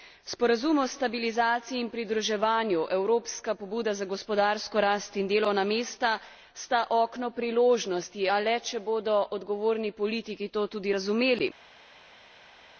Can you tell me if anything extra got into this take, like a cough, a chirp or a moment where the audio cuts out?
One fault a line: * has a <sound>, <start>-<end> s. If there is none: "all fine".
all fine